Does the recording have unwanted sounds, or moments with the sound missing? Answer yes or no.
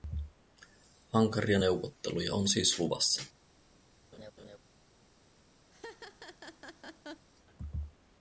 yes